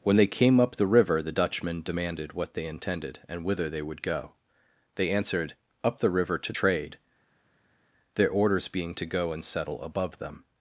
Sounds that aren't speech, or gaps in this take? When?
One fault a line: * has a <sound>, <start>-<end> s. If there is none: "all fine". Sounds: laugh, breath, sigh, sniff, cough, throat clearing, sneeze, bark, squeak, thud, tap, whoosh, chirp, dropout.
all fine